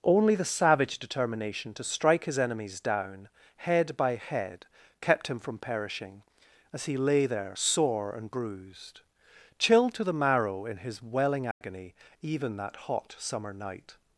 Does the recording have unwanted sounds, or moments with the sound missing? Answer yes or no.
yes